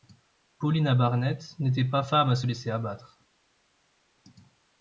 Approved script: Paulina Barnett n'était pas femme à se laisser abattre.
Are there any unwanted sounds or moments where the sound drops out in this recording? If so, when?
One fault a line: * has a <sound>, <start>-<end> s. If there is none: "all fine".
all fine